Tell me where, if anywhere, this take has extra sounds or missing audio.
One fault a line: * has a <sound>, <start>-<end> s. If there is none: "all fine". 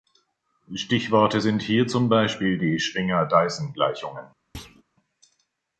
* has a thud, 4.5-4.8 s